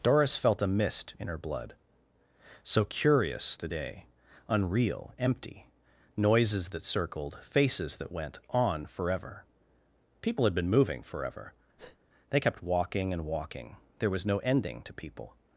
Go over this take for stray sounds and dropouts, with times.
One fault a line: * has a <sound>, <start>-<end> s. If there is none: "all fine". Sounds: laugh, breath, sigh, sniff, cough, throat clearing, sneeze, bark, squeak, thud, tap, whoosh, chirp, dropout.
* has a breath, 11.8-12.0 s